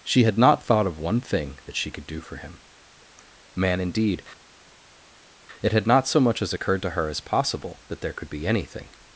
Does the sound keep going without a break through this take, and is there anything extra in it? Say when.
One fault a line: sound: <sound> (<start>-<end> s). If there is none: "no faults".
no faults